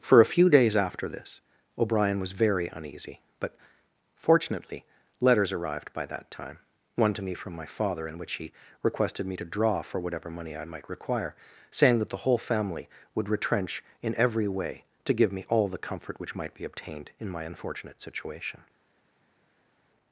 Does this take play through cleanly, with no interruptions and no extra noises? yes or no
yes